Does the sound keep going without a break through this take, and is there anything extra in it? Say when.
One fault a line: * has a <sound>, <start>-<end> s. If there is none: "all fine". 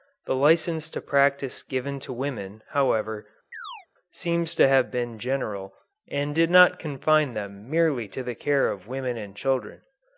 * has a chirp, 3.5-3.9 s